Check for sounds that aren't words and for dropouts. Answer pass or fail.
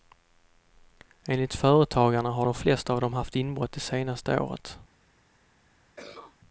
fail